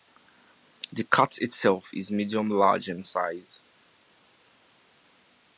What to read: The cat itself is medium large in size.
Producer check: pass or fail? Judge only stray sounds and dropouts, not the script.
pass